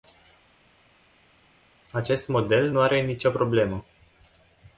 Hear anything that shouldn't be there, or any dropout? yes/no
no